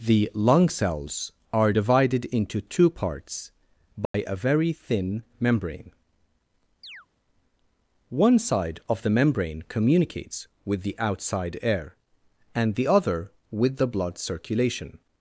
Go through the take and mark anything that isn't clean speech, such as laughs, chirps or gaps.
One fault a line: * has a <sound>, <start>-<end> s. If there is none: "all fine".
* has a dropout, 4.1-4.1 s
* has a chirp, 6.8-7.1 s